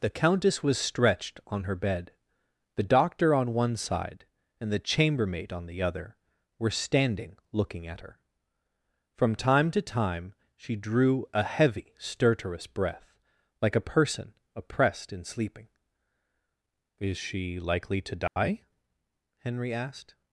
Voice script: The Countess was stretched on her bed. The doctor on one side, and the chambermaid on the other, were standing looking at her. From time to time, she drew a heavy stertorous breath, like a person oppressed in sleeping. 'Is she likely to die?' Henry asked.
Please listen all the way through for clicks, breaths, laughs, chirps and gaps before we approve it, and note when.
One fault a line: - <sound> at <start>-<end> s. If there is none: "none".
- dropout at 18.3-18.4 s